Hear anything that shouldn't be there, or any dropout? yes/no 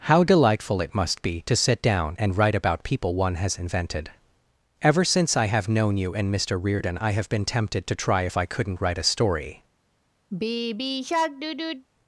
yes